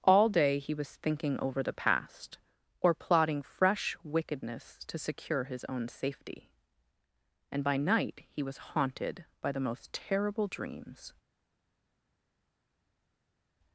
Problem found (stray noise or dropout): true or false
false